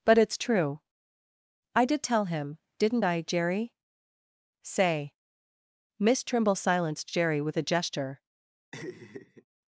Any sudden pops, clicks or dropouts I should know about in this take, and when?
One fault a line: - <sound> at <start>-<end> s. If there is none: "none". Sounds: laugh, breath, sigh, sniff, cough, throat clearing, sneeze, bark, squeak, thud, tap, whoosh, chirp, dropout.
- laugh at 8.7-9.4 s